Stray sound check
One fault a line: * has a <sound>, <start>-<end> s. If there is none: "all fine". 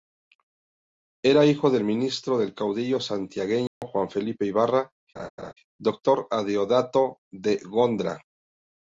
* has a dropout, 3.7-3.8 s
* has a laugh, 5.2-5.5 s